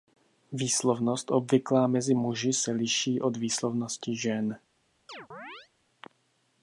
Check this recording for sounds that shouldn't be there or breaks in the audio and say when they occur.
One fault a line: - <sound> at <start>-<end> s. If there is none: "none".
- chirp at 5.1-5.7 s